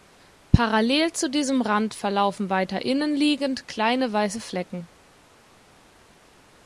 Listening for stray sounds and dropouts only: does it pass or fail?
pass